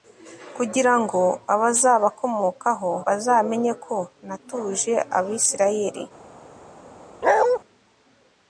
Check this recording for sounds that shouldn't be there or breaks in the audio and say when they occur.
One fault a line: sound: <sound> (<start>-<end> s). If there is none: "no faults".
sound: bark (7.2-7.6 s)